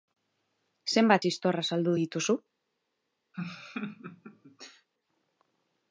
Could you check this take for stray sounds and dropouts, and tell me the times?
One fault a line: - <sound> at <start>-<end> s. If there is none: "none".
- laugh at 3.3-4.9 s